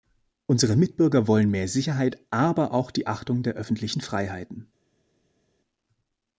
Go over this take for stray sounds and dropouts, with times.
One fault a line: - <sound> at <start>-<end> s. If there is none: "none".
none